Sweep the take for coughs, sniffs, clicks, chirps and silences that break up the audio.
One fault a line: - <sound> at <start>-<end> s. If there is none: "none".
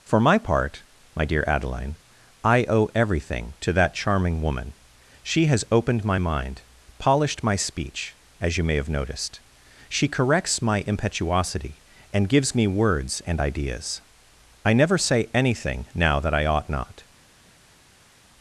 none